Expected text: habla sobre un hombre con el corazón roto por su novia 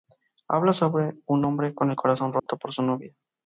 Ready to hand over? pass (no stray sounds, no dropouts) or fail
fail